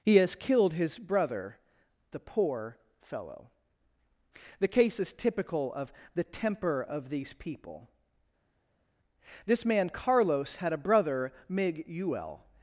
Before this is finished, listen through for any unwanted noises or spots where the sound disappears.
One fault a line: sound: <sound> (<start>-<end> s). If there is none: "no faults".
no faults